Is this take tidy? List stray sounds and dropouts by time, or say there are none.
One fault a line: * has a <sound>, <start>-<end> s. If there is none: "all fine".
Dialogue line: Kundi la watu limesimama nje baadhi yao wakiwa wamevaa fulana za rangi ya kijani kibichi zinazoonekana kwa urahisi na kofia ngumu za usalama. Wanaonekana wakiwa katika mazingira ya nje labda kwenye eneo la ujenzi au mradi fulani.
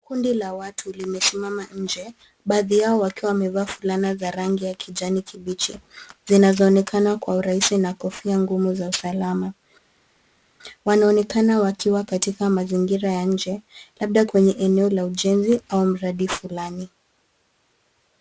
all fine